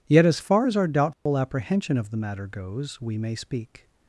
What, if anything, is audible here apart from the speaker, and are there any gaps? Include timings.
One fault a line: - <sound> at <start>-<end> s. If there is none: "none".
- dropout at 1.1-1.3 s